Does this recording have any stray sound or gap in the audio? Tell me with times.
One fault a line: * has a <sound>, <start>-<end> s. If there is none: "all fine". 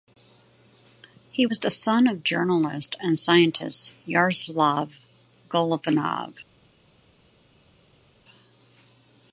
all fine